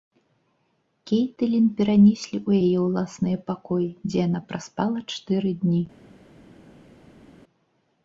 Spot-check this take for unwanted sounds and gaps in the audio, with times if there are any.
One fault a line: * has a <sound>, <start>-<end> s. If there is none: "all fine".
all fine